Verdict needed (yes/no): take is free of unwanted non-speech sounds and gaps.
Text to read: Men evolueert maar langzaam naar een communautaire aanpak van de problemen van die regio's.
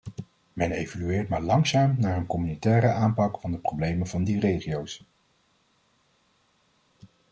yes